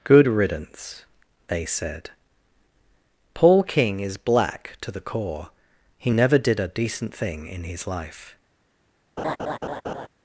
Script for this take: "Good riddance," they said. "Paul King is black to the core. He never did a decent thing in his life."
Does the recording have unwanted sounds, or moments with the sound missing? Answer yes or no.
yes